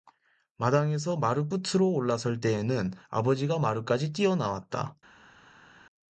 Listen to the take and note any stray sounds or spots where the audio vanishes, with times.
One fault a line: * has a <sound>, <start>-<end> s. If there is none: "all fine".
all fine